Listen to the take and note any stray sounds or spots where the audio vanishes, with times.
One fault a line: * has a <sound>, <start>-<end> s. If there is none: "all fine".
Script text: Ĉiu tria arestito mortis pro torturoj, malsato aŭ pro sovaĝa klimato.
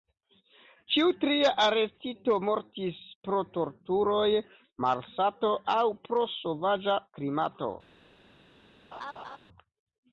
* has a laugh, 8.9-9.4 s